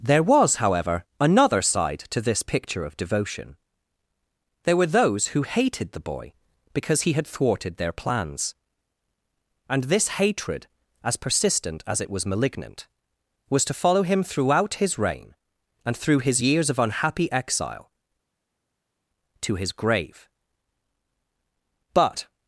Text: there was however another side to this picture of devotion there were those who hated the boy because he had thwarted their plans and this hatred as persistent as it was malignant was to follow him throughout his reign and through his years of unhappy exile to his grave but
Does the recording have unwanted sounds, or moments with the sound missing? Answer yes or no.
no